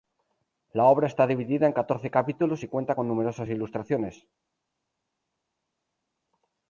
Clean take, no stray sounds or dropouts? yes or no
yes